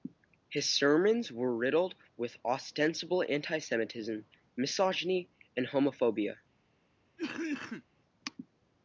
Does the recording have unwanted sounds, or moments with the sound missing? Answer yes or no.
yes